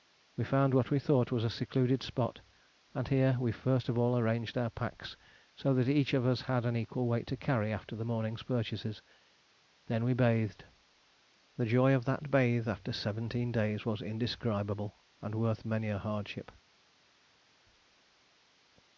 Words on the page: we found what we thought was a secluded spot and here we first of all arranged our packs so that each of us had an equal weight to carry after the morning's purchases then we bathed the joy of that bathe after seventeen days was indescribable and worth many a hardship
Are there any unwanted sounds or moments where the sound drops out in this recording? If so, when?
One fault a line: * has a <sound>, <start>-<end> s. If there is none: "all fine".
all fine